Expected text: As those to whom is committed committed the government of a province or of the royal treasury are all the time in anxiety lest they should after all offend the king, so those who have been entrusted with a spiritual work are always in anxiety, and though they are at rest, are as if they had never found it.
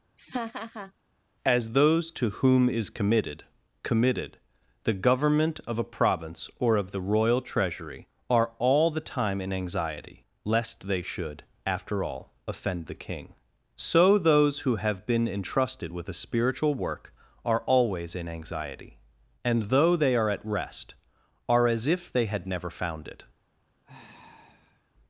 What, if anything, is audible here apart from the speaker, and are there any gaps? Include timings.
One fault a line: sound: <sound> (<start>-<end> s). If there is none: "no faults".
sound: laugh (0.2-0.9 s)
sound: sigh (23.8-24.9 s)